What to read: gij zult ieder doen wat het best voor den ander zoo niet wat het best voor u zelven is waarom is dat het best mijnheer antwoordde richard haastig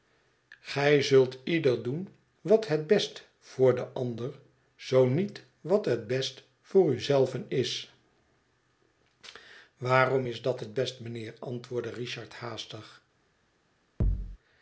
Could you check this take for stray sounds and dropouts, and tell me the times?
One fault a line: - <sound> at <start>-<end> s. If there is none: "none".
- thud at 14.0-14.4 s